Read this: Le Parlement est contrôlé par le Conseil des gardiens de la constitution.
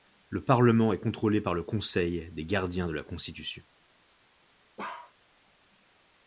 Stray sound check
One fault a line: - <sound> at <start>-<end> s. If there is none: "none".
- bark at 4.8-5.1 s